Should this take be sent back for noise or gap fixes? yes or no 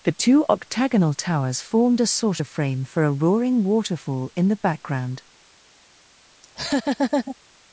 yes